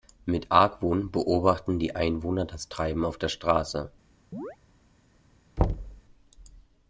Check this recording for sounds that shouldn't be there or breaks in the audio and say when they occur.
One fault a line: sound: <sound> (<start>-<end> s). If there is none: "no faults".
sound: chirp (4.3-4.6 s)
sound: thud (5.6-6.0 s)